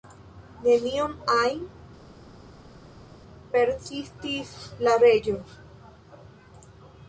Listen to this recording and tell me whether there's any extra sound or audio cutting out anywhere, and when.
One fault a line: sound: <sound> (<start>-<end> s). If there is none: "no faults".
no faults